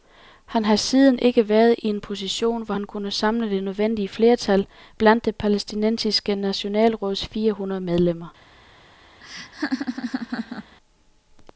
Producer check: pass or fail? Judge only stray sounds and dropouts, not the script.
fail